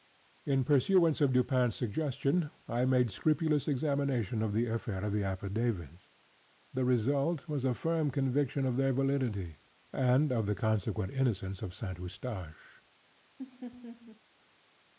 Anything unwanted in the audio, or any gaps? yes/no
yes